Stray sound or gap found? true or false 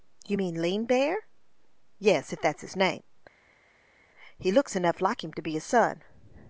false